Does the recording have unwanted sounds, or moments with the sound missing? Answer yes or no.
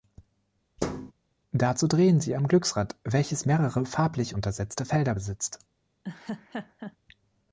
yes